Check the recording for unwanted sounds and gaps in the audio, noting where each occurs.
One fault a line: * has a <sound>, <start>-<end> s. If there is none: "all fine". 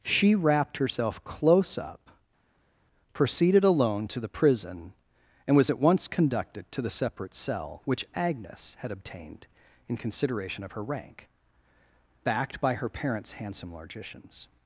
all fine